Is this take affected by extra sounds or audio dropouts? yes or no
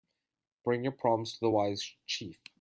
no